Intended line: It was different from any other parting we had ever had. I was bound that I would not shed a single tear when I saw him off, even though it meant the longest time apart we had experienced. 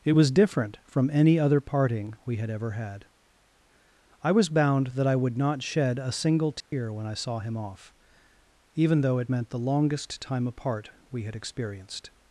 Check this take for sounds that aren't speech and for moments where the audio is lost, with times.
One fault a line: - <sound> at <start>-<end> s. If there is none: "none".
- dropout at 6.6-6.7 s